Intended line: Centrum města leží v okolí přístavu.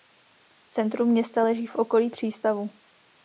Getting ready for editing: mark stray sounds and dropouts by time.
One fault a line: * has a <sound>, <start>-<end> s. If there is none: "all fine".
all fine